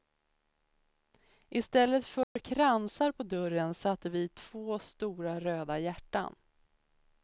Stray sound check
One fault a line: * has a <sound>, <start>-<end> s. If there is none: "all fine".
* has a dropout, 2.2-2.4 s